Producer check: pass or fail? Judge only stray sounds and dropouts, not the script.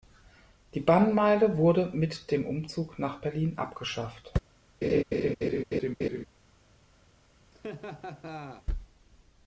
fail